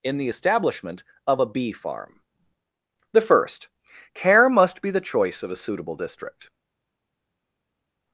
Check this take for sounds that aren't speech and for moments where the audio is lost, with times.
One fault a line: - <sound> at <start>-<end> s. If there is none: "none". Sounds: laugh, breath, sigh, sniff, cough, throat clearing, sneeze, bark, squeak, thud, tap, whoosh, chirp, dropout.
none